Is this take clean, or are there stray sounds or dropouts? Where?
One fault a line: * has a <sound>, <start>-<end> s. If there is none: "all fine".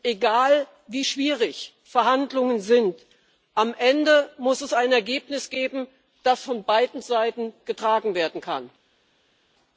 all fine